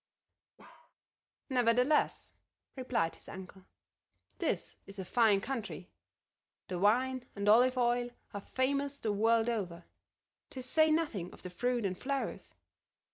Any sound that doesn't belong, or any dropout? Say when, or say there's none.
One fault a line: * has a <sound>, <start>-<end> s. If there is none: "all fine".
* has a bark, 0.6-0.9 s